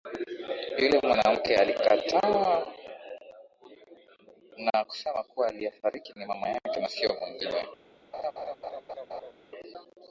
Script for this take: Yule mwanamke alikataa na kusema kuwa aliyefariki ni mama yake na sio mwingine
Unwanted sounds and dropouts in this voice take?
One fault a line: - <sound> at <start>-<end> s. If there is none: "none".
- laugh at 8.1-9.3 s